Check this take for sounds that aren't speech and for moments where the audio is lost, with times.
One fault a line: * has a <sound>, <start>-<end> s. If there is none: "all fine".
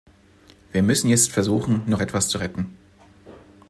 all fine